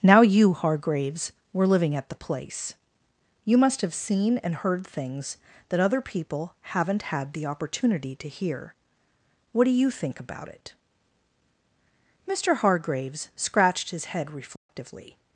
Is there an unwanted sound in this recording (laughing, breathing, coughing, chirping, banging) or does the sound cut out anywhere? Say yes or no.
yes